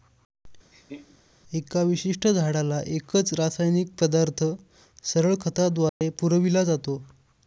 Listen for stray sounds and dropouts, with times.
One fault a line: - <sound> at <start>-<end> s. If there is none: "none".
- laugh at 0.7-1.2 s
- dropout at 5.9-6.0 s